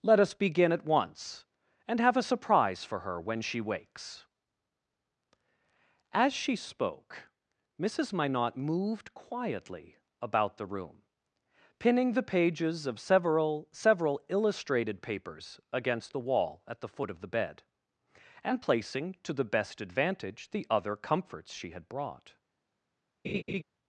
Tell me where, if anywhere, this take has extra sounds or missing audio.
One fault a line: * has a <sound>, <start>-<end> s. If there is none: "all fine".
* has a laugh, 23.2-23.6 s